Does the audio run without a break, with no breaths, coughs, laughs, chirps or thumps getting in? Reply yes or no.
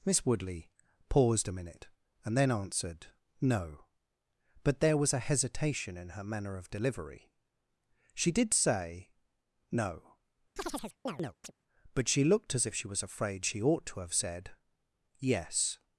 no